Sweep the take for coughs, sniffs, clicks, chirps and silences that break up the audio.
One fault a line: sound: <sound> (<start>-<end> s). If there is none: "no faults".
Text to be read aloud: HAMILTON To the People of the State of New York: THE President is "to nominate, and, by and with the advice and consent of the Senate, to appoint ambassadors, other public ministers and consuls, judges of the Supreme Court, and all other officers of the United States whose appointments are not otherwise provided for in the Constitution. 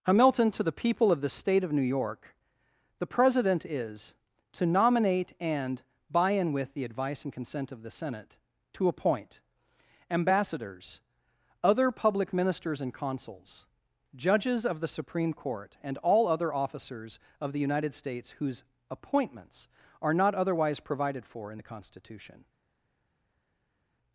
no faults